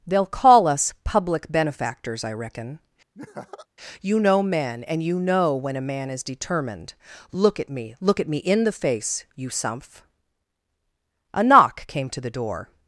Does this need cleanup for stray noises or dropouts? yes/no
yes